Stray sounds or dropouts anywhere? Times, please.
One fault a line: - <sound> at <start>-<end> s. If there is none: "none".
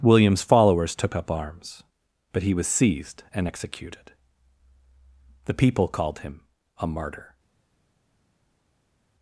none